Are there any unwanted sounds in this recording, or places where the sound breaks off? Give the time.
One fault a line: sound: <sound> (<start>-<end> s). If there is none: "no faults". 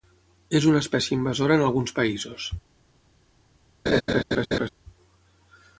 sound: laugh (3.9-4.7 s)